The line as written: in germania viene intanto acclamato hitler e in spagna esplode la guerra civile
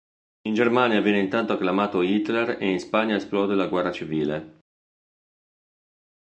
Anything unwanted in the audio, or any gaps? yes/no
no